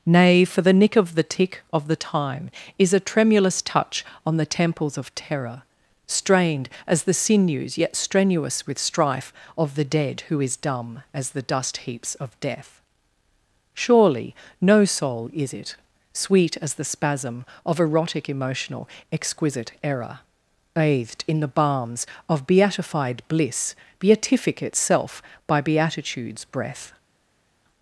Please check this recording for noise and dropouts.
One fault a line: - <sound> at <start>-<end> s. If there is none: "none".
none